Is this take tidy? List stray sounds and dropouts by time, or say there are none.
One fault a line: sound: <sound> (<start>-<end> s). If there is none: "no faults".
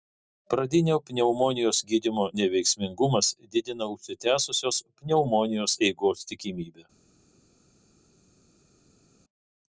no faults